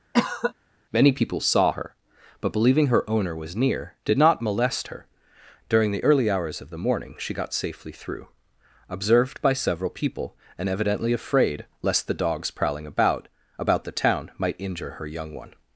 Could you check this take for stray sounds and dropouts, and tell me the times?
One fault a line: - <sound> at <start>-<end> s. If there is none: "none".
- cough at 0.1-0.5 s